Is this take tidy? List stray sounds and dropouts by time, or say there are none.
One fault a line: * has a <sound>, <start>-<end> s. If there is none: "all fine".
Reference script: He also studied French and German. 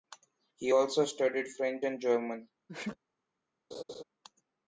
* has a sneeze, 2.7-3.0 s
* has a laugh, 3.7-4.0 s